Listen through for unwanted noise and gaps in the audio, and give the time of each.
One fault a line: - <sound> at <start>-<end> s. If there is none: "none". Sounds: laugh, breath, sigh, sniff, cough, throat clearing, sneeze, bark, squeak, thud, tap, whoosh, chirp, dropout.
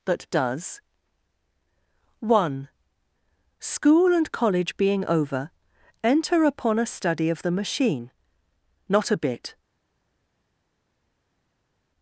none